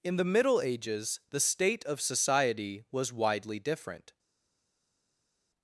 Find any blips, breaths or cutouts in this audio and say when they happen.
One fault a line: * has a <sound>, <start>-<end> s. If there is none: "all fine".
all fine